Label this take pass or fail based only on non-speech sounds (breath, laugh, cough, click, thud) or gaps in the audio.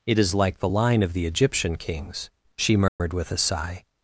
fail